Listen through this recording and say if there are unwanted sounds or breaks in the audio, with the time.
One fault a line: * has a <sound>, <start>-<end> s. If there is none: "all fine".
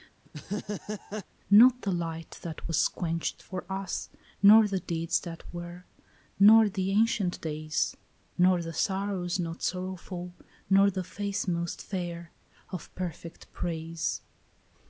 * has a laugh, 0.3-1.3 s